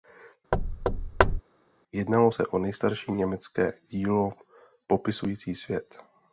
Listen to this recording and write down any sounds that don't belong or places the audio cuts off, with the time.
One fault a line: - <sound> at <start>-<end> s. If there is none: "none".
- thud at 0.5-1.4 s